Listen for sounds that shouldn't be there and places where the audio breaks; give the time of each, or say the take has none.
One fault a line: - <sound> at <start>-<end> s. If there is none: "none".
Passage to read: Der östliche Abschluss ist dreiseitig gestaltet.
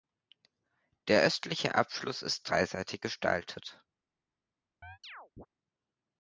- chirp at 4.8-5.5 s